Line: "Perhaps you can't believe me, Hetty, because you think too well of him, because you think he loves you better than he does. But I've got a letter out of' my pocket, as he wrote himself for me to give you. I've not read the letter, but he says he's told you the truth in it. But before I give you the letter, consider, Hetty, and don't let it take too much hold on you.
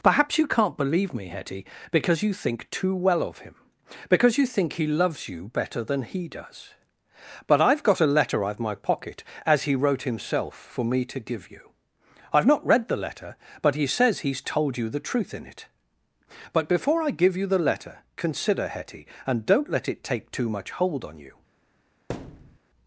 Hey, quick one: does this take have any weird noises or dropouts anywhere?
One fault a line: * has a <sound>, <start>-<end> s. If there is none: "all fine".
* has a thud, 22.1-22.6 s